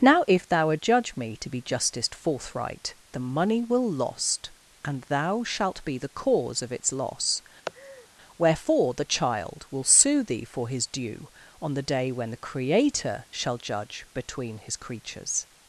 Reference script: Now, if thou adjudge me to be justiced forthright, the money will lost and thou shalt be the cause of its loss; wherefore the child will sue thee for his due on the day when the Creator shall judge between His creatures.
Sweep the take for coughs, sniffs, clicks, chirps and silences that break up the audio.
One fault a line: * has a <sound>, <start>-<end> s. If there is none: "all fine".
* has a laugh, 7.7-8.1 s